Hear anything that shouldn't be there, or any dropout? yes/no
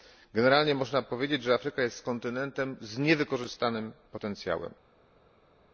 no